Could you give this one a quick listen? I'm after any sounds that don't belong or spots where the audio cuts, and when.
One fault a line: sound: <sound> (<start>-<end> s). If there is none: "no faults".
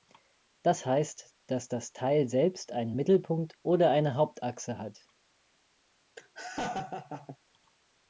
sound: laugh (6.2-7.4 s)